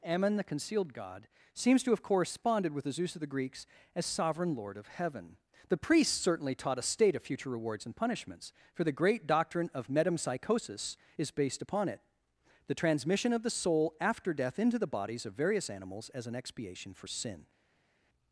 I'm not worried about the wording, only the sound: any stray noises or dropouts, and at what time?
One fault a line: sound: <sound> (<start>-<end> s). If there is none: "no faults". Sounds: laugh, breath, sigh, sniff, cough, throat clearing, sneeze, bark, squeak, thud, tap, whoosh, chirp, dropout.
no faults